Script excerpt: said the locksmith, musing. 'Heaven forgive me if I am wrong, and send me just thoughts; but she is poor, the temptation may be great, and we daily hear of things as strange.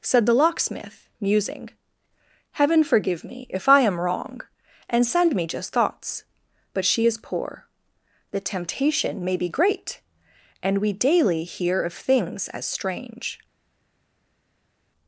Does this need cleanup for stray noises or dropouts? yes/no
no